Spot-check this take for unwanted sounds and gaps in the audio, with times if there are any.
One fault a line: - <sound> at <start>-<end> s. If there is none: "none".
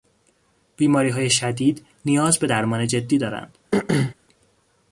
- throat clearing at 3.7-4.1 s